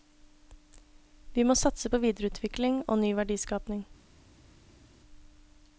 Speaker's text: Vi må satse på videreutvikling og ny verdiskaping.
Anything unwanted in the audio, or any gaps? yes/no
no